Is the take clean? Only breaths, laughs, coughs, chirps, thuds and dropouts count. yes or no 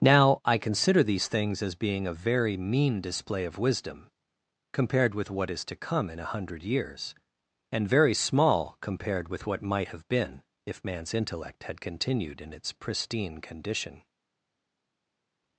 yes